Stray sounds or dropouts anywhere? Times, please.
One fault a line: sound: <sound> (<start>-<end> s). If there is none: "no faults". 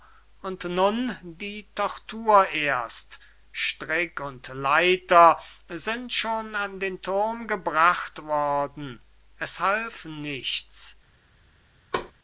sound: thud (11.9-12.1 s)